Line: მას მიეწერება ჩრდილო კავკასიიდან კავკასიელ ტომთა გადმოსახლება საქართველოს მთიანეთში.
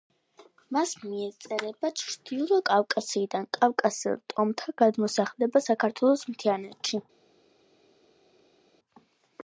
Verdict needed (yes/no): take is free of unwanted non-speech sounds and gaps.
yes